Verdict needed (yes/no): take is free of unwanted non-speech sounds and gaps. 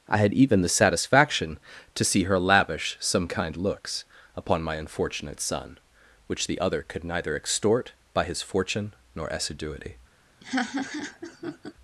no